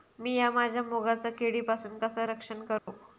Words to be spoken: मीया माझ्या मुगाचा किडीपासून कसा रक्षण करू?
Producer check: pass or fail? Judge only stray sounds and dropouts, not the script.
fail